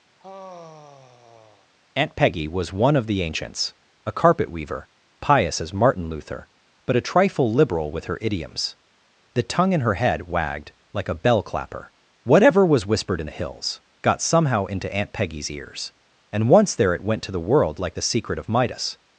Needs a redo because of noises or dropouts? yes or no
yes